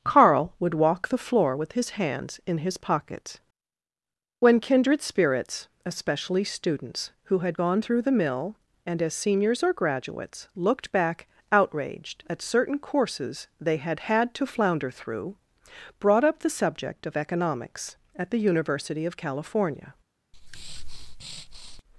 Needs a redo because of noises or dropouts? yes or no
yes